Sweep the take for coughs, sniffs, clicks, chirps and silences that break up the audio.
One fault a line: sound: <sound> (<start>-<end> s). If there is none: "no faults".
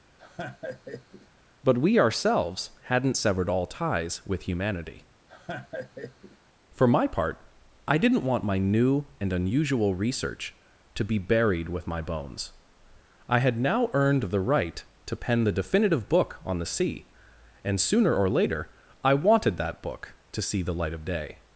sound: laugh (0.2-1.3 s)
sound: laugh (5.3-6.4 s)